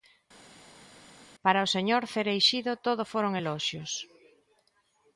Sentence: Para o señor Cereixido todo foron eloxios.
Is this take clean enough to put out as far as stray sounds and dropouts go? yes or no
yes